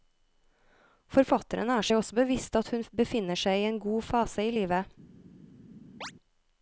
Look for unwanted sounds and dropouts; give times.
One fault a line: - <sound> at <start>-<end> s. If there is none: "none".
- chirp at 6.0-6.1 s